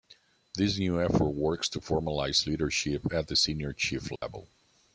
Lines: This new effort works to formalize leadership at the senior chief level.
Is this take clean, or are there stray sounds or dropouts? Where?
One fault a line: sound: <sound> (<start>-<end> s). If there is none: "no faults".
sound: dropout (4.2-4.2 s)